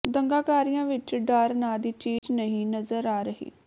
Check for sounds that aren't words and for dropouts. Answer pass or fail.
fail